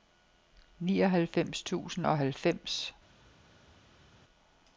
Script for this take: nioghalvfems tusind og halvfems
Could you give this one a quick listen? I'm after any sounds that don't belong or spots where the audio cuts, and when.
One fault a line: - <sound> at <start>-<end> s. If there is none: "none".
none